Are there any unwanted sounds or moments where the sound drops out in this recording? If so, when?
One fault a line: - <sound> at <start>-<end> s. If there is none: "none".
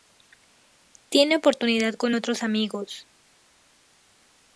none